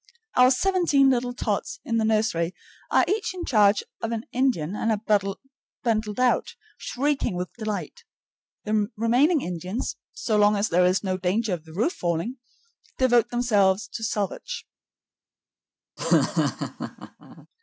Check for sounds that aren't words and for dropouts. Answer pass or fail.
fail